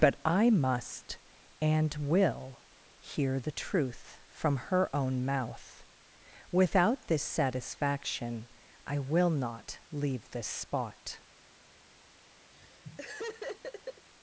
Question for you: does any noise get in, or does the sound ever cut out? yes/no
yes